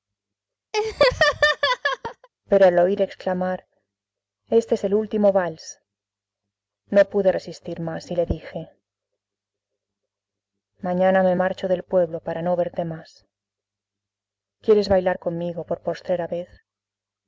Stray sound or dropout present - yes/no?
yes